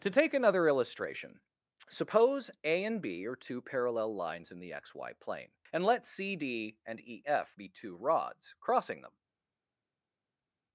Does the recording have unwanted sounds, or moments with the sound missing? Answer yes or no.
no